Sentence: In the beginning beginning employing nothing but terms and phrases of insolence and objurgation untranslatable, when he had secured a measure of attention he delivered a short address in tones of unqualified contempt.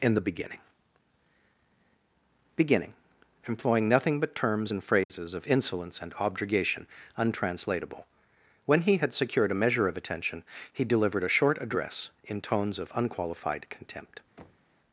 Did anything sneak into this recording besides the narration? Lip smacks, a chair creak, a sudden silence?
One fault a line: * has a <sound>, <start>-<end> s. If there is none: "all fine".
* has a dropout, 5.0-5.1 s
* has a thud, 14.4-14.8 s